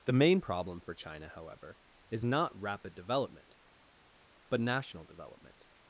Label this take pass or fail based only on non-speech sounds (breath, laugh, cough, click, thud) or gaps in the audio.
pass